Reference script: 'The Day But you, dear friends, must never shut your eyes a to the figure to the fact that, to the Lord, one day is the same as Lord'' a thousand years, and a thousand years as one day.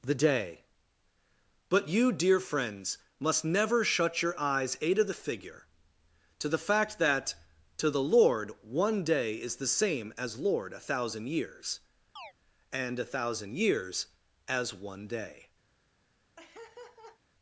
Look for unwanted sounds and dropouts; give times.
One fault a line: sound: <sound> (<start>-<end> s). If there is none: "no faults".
sound: chirp (12.2-12.3 s)
sound: laugh (16.4-17.2 s)